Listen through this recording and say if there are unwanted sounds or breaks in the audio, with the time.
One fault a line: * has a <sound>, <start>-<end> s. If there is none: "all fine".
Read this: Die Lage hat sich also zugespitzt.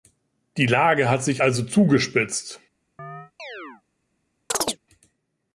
* has a chirp, 3.0-3.8 s
* has a chirp, 4.5-4.8 s